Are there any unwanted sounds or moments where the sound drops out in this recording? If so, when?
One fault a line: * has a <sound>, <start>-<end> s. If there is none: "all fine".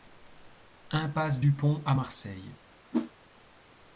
* has a whoosh, 2.9-3.1 s